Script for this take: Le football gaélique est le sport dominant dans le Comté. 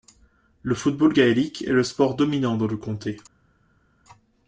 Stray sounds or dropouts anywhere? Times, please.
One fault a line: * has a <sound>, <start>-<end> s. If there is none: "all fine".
all fine